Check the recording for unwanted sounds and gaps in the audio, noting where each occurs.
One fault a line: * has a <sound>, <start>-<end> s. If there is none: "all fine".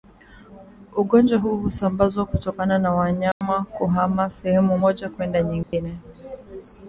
* has a dropout, 3.3-3.4 s
* has a dropout, 5.6-5.7 s